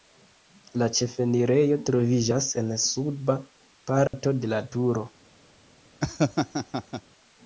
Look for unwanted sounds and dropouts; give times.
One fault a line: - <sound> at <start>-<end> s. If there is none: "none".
- dropout at 4.1-4.1 s
- laugh at 6.0-7.0 s